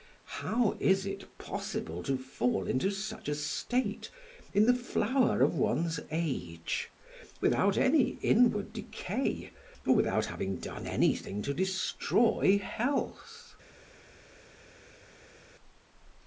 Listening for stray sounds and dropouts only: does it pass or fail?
pass